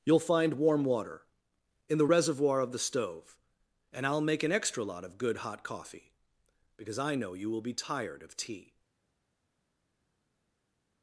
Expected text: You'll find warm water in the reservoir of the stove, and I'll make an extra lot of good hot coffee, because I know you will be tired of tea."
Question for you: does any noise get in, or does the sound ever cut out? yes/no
no